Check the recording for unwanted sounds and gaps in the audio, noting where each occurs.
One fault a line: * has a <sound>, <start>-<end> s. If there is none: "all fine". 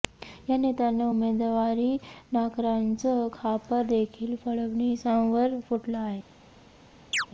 * has a chirp, 7.1-7.3 s